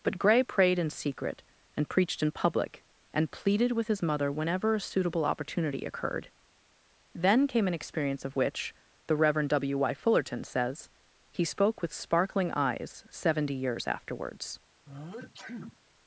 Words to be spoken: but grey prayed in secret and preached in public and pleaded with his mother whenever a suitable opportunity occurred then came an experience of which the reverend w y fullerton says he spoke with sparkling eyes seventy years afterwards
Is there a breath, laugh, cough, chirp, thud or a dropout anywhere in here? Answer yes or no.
yes